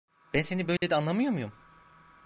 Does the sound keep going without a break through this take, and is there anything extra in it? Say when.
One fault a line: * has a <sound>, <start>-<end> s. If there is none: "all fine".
* has a dropout, 0.8-0.8 s